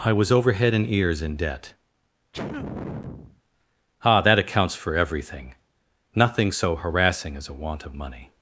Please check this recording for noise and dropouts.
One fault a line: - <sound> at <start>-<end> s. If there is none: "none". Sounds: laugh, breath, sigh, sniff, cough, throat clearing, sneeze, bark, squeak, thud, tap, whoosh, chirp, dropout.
- sneeze at 2.3-3.4 s